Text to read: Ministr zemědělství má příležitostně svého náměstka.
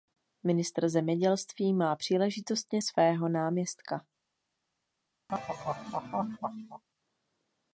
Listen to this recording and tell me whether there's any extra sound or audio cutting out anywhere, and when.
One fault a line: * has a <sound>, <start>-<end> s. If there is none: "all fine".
* has a laugh, 5.3-6.8 s